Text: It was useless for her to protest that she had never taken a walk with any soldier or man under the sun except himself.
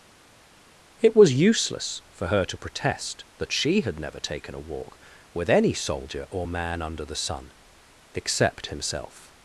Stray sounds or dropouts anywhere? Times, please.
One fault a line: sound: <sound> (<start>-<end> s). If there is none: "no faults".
no faults